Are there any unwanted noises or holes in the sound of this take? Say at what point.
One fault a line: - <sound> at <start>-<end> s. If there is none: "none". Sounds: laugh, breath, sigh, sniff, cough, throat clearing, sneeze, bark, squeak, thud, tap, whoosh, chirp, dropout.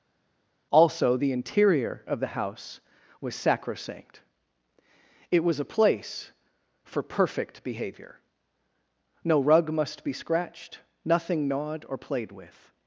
none